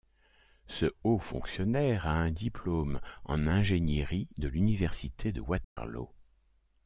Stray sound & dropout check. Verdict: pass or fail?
fail